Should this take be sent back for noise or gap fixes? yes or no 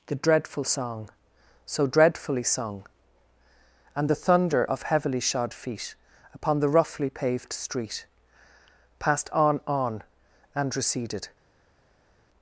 no